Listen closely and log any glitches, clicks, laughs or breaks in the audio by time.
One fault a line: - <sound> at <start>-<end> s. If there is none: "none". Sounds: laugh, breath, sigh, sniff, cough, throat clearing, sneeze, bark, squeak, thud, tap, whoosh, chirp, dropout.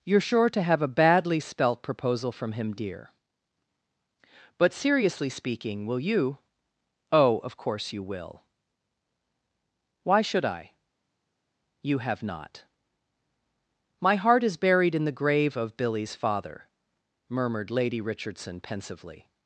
none